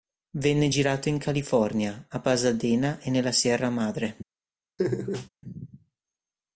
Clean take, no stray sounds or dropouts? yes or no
no